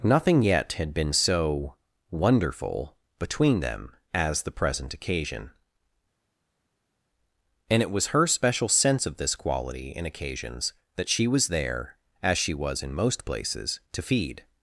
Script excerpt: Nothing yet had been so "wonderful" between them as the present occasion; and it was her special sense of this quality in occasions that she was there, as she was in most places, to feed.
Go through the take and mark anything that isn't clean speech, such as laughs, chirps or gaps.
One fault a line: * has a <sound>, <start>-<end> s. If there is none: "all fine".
all fine